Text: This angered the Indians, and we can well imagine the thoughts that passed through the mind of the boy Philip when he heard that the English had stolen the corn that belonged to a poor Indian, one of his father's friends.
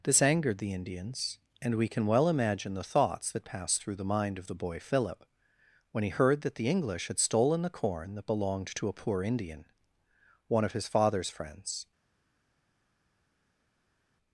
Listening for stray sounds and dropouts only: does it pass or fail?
pass